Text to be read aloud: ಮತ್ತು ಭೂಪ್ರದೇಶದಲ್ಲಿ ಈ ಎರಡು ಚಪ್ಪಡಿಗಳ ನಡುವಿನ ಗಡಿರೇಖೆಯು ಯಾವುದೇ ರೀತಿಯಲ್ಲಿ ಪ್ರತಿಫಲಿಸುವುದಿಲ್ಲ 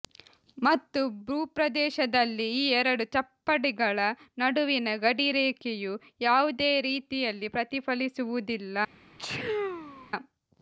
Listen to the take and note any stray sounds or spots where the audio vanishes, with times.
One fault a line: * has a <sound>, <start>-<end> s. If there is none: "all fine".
* has a sneeze, 9.2-10.1 s